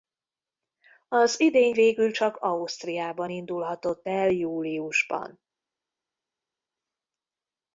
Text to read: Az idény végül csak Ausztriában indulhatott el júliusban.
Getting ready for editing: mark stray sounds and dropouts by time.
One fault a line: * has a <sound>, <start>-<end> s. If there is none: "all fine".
all fine